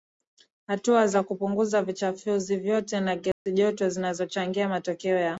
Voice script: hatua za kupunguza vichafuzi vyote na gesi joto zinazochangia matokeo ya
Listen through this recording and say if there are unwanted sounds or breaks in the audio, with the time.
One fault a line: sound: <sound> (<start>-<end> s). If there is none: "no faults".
sound: dropout (3.3-3.5 s)